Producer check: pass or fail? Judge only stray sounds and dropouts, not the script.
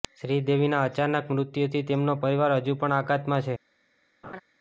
fail